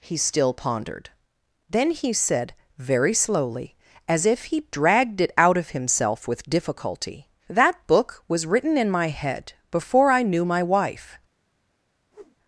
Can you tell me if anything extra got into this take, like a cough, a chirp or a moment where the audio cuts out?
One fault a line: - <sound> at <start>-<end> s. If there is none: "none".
- whoosh at 12.1-12.4 s